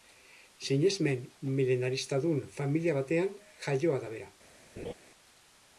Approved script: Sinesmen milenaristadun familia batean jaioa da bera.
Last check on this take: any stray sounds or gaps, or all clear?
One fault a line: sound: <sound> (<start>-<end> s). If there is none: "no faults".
sound: laugh (4.8-4.9 s)